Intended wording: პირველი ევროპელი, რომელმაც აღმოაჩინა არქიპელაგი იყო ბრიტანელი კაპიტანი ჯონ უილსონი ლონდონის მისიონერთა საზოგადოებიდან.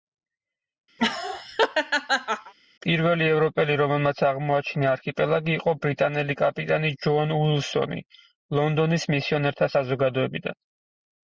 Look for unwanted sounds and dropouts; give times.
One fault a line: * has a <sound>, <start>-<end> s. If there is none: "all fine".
* has a laugh, 1.0-2.5 s